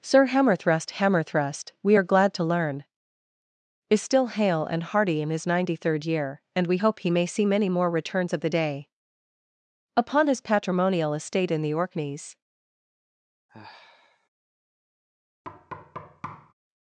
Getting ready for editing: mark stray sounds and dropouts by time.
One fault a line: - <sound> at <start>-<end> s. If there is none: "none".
- sigh at 13.5-14.3 s
- thud at 15.4-16.5 s